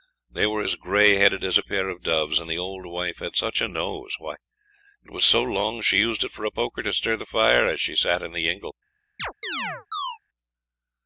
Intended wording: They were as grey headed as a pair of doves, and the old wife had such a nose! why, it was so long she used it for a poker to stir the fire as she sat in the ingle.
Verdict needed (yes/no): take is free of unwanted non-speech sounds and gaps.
no